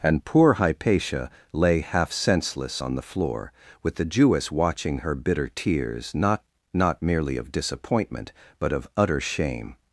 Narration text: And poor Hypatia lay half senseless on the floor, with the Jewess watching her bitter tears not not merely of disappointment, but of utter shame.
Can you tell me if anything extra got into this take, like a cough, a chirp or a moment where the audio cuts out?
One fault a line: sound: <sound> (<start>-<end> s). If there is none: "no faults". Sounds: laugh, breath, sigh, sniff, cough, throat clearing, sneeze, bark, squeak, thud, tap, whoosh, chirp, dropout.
no faults